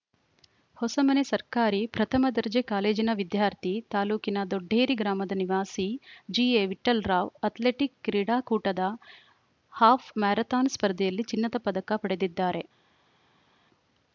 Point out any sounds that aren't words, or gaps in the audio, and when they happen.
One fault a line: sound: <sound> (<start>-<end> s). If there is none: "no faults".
no faults